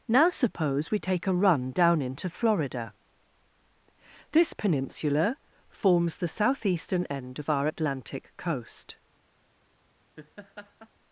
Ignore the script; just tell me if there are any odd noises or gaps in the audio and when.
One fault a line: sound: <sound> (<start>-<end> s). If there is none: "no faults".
sound: laugh (10.2-10.9 s)